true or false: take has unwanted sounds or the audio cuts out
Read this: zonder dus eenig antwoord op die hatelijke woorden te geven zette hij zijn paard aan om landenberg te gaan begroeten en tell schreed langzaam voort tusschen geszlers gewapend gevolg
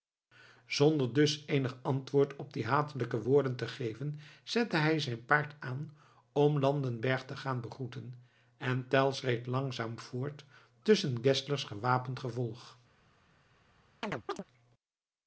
true